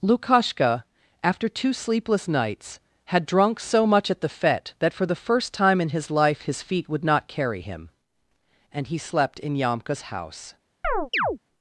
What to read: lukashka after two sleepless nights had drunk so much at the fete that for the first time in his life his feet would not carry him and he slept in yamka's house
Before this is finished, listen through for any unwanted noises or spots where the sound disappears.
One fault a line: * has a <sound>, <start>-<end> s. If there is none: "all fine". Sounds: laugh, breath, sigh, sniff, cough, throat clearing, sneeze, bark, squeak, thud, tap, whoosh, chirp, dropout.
* has a chirp, 10.8-11.4 s